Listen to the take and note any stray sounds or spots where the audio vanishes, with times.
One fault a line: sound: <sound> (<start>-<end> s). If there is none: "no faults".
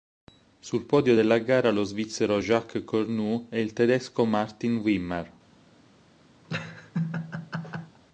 sound: laugh (6.4-8.0 s)